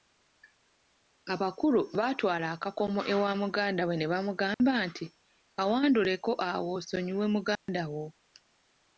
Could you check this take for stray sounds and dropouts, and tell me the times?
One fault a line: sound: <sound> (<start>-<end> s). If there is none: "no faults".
sound: dropout (4.5-4.6 s)
sound: dropout (7.6-7.7 s)